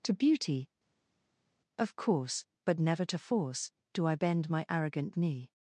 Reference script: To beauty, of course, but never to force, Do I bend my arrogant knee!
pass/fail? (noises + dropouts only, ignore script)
pass